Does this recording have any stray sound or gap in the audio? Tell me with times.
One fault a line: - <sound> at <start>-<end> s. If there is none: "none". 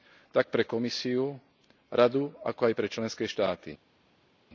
none